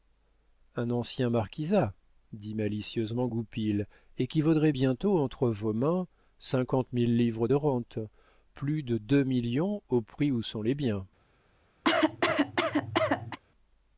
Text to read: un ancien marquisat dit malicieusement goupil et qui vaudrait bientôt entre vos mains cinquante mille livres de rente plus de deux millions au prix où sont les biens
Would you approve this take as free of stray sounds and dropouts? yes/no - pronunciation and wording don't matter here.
no